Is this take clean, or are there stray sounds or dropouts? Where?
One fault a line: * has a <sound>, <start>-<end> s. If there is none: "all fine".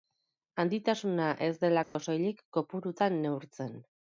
* has a dropout, 1.8-2.0 s